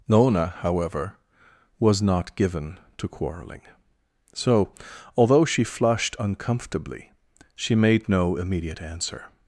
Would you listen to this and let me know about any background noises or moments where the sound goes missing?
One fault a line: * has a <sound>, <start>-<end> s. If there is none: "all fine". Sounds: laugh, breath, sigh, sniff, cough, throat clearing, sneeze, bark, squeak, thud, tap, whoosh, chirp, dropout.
all fine